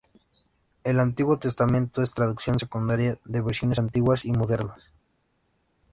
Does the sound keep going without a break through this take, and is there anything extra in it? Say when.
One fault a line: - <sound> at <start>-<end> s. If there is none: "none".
none